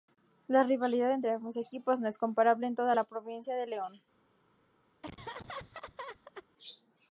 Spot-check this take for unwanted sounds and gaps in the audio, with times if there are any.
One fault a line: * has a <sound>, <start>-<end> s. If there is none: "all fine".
* has a laugh, 5.0-6.5 s